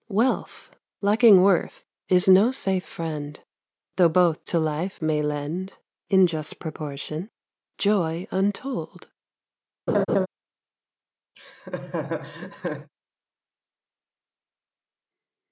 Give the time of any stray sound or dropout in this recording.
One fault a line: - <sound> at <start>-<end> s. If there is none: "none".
- laugh at 9.9-10.3 s
- laugh at 11.3-12.9 s